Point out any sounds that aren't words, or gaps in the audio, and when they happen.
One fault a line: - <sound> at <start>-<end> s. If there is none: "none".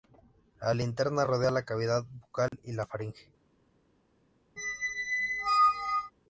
- dropout at 2.5-2.5 s
- squeak at 4.6-6.1 s